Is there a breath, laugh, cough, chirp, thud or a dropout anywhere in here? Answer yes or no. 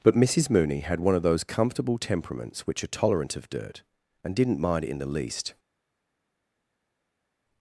no